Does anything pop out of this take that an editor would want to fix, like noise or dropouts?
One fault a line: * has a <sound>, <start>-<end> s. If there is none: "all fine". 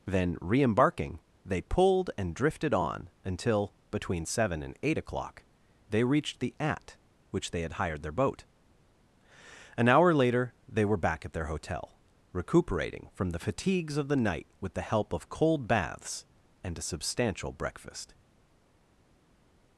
all fine